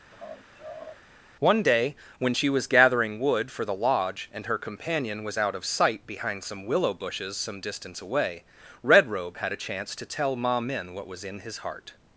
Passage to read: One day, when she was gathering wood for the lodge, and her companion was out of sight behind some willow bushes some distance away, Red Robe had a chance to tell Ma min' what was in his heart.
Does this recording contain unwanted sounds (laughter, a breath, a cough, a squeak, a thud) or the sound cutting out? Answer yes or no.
yes